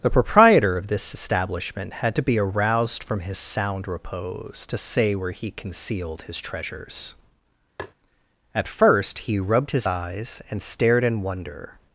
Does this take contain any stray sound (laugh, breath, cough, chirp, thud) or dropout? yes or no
yes